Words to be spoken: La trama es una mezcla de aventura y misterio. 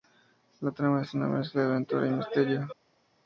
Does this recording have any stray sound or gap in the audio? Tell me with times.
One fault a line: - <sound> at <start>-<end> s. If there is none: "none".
none